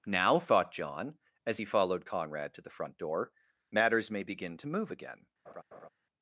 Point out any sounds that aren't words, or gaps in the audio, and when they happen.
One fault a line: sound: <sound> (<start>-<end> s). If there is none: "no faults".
sound: laugh (5.4-5.9 s)